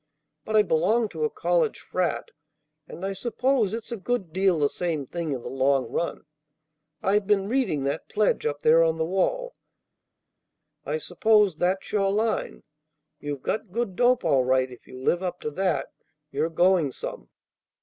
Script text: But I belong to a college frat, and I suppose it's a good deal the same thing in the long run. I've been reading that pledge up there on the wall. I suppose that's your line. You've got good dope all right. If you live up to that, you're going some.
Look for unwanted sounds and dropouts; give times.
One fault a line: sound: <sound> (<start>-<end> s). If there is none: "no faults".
no faults